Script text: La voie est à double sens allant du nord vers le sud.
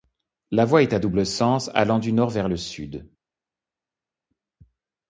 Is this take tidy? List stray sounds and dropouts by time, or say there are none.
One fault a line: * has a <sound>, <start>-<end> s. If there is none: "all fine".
all fine